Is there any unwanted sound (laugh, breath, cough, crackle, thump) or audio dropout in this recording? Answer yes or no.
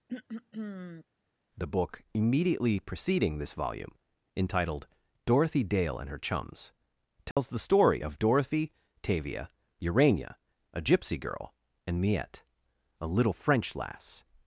yes